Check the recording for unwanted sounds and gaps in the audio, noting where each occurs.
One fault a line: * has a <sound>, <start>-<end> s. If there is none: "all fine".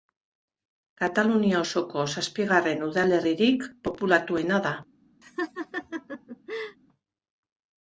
* has a laugh, 5.2-6.8 s